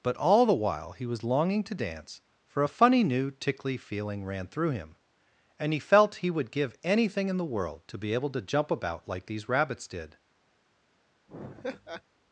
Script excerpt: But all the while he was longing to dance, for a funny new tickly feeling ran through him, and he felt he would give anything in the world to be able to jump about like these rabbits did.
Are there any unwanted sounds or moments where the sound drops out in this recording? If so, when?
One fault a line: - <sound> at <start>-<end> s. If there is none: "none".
- laugh at 11.3-12.0 s